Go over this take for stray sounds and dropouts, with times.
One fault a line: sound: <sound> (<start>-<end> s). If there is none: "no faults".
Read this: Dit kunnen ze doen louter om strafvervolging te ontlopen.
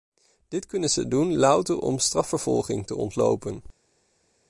no faults